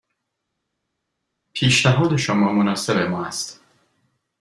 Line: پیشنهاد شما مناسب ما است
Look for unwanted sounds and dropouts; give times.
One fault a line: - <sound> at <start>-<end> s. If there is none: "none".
none